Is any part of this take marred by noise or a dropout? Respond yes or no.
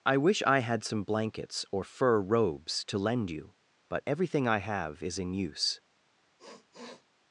yes